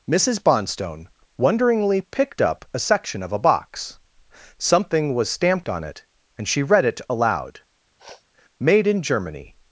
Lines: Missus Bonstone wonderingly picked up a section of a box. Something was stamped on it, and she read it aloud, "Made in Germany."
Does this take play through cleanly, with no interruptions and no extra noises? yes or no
no